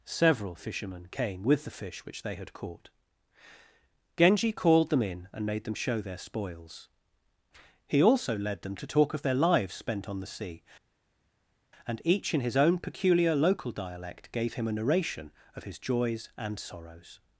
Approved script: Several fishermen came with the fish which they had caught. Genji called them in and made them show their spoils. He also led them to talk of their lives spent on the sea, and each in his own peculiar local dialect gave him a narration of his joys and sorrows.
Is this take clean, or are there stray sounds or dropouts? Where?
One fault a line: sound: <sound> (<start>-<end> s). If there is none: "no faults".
no faults